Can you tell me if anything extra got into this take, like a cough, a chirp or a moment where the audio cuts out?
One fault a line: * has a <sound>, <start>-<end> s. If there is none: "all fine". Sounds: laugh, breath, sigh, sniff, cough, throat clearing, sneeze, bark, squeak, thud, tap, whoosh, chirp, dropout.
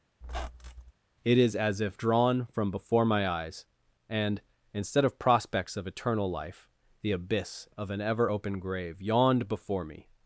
* has a squeak, 0.2-0.9 s